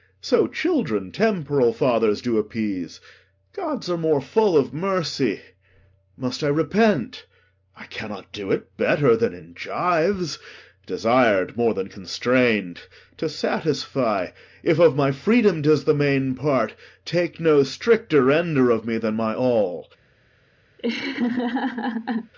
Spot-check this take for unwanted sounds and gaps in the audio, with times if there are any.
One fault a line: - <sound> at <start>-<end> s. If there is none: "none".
- laugh at 20.8-22.3 s